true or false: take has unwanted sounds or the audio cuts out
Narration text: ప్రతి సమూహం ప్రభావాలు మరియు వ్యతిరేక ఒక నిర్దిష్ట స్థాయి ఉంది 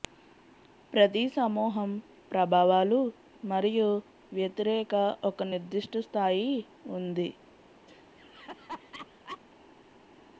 true